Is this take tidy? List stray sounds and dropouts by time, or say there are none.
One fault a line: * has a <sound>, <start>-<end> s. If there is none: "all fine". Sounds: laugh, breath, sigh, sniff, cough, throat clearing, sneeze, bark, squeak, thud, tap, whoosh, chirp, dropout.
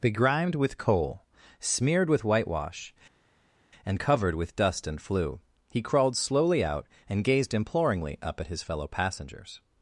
all fine